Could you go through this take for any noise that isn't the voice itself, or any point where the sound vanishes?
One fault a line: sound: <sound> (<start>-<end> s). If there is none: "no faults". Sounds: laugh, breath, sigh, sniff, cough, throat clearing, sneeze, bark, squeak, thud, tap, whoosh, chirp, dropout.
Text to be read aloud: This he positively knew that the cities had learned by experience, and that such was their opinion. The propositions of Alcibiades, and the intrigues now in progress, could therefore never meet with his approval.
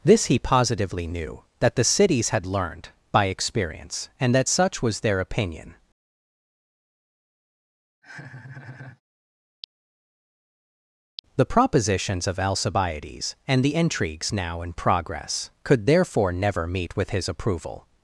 sound: laugh (8.0-9.0 s)